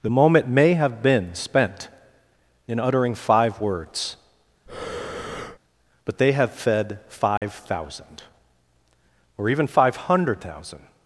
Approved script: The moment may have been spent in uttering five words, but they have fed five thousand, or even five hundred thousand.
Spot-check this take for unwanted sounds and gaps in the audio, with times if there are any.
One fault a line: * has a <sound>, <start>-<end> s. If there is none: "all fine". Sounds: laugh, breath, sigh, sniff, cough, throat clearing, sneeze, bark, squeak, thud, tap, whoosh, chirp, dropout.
* has a breath, 4.7-5.6 s
* has a dropout, 7.4-7.4 s